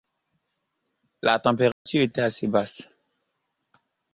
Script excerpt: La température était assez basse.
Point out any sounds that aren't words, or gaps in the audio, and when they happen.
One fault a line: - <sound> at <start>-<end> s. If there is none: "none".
- dropout at 1.7-1.9 s